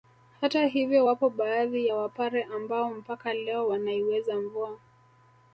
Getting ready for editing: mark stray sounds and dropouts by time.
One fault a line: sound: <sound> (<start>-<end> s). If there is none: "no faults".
no faults